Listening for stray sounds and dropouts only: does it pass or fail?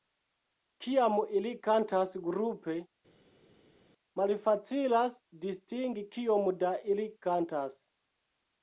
pass